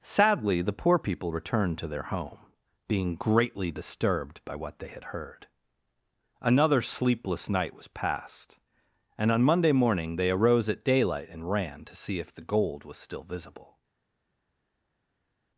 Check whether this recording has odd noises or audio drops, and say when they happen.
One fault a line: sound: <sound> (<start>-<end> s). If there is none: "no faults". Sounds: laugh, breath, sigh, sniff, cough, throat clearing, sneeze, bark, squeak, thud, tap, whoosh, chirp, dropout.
no faults